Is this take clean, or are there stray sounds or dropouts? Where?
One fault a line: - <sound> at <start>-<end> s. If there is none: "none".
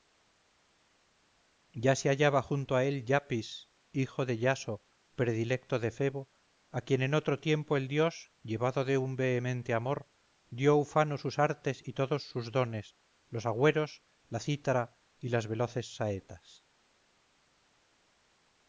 none